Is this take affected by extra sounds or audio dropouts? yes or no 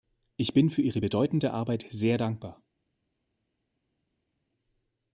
no